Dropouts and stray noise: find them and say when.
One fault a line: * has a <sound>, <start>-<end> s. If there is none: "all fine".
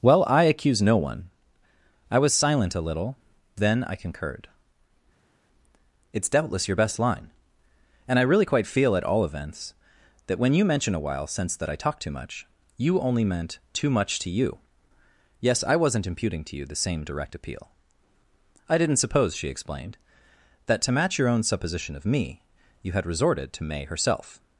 all fine